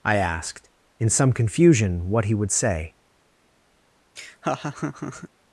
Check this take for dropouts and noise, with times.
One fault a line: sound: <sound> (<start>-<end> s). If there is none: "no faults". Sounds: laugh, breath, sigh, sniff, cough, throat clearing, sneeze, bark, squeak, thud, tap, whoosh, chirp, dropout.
sound: laugh (4.2-5.3 s)